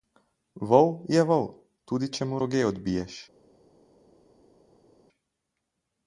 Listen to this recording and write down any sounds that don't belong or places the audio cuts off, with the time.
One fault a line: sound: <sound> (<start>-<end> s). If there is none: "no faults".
no faults